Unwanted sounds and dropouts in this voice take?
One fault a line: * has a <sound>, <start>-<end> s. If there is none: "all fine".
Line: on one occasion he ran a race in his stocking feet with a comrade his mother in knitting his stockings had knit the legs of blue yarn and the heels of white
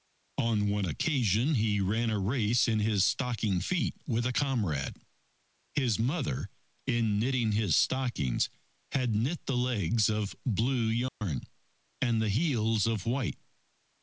* has a dropout, 11.1-11.2 s